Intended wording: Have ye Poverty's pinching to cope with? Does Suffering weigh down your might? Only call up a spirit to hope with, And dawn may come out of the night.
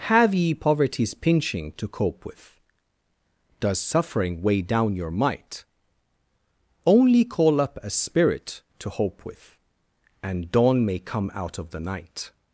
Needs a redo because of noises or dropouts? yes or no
no